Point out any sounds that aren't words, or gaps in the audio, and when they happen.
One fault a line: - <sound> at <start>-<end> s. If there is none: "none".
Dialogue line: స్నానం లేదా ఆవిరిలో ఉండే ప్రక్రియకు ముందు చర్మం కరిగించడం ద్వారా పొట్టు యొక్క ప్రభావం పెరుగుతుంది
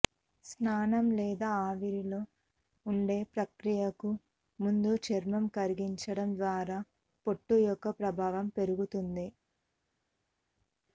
none